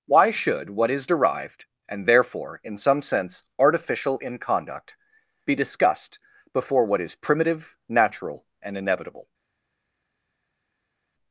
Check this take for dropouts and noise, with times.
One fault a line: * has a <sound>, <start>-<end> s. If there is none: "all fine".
all fine